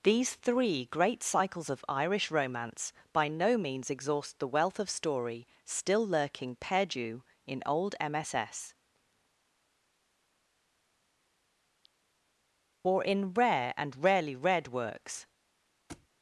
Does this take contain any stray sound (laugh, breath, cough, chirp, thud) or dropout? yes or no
yes